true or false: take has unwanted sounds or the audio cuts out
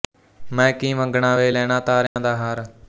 true